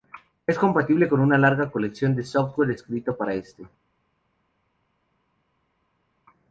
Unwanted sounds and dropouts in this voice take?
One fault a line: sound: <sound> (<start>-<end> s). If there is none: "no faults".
no faults